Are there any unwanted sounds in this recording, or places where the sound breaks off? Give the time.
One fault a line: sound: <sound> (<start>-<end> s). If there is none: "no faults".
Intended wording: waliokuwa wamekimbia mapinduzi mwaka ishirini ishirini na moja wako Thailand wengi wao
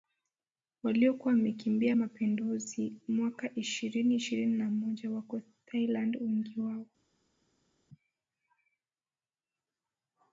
no faults